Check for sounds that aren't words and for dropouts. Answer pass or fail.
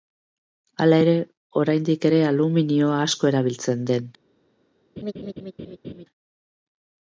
fail